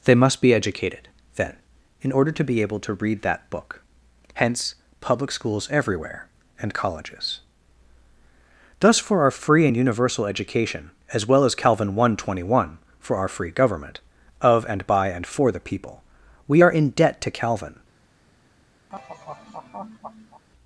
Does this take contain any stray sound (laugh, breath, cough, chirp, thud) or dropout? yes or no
yes